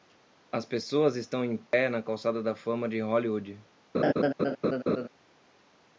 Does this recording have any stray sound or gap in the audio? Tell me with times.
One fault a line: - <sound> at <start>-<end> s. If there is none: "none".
- dropout at 1.7-1.7 s
- laugh at 3.9-5.1 s